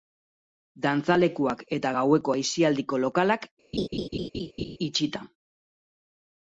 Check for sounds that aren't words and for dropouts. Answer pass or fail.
fail